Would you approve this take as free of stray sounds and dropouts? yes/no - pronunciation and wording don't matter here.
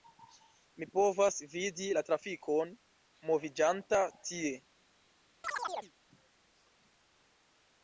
no